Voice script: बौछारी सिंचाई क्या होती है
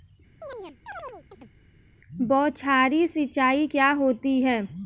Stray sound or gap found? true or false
true